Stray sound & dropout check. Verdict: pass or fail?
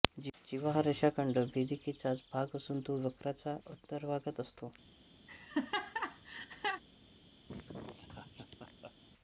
fail